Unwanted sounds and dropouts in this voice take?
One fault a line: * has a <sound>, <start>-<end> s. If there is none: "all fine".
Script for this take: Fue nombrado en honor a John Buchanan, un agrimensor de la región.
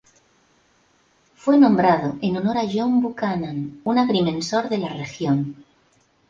all fine